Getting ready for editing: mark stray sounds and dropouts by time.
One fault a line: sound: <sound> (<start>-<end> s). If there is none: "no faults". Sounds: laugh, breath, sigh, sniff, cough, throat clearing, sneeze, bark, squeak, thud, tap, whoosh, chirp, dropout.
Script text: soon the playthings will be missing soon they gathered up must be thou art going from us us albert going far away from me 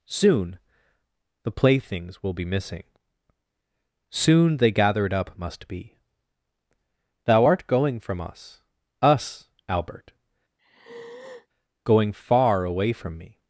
sound: sigh (10.6-11.5 s)